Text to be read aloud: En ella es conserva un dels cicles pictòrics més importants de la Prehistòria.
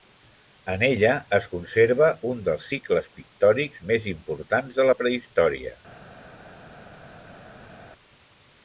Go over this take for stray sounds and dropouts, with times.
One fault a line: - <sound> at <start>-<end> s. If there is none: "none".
none